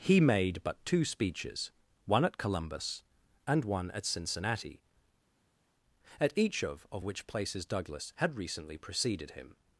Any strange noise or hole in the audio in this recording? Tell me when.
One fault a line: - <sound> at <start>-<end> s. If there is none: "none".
none